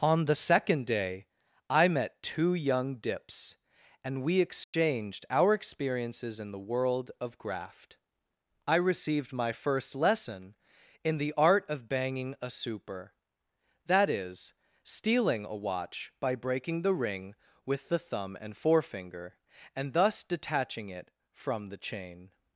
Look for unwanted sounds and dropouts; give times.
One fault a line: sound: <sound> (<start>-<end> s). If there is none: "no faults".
sound: dropout (4.6-4.7 s)